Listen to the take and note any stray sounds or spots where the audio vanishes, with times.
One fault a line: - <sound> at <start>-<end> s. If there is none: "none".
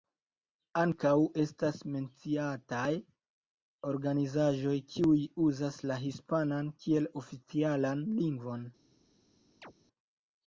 - chirp at 9.6-9.7 s